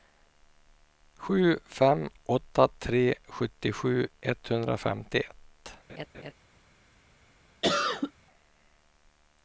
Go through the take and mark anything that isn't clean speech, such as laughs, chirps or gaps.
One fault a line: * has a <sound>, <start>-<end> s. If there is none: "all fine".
* has a laugh, 5.9-6.3 s
* has a cough, 7.6-8.1 s